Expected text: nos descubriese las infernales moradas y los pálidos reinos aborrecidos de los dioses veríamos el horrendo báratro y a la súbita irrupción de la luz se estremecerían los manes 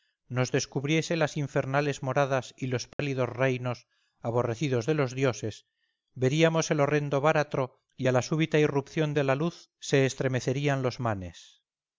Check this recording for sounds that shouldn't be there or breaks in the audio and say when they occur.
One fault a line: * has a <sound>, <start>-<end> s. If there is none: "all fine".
* has a dropout, 2.9-3.0 s